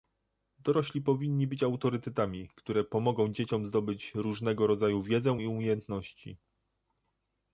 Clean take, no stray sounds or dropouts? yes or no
yes